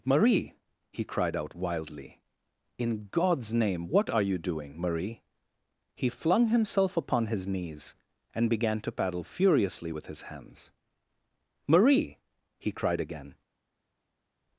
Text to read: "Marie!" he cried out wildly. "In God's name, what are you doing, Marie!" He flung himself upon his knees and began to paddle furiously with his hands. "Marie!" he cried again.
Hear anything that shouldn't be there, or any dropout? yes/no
no